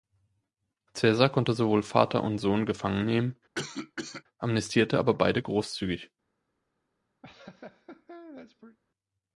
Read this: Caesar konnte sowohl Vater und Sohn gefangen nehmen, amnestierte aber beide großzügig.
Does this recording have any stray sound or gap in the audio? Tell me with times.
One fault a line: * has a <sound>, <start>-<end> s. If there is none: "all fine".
* has a cough, 3.6-4.2 s
* has a laugh, 7.2-8.8 s